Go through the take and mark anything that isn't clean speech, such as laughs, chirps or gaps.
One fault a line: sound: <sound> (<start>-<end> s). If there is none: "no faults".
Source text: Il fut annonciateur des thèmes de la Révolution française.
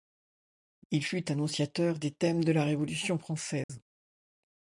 sound: dropout (3.6-3.7 s)